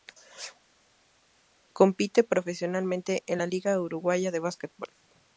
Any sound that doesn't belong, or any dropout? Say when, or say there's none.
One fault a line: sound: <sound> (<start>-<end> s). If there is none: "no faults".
no faults